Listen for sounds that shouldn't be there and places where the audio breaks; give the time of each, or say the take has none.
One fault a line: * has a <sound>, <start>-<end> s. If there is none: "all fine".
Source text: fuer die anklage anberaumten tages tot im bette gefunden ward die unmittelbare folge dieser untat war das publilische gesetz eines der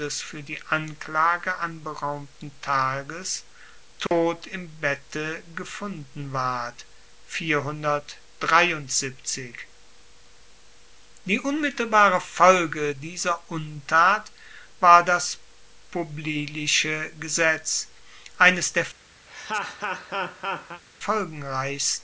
* has a dropout, 4.1-4.1 s
* has a laugh, 19.3-20.8 s